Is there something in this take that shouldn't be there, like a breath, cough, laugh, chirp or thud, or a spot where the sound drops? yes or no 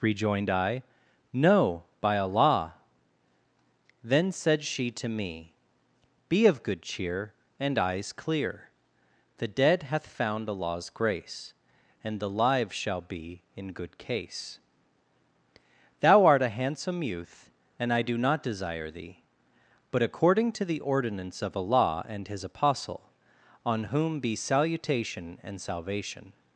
no